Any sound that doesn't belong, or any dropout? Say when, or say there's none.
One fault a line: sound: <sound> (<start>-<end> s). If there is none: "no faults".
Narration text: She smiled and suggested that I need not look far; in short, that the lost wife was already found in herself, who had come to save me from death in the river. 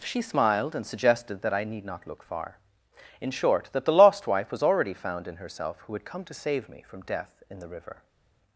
no faults